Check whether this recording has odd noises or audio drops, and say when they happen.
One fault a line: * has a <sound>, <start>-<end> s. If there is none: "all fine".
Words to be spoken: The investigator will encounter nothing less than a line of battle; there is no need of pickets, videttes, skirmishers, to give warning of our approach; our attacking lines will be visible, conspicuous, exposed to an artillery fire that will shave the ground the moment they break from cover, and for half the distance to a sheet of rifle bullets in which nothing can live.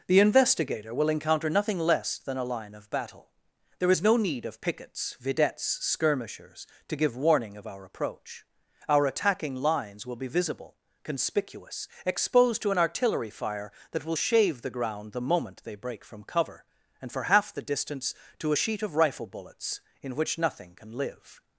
all fine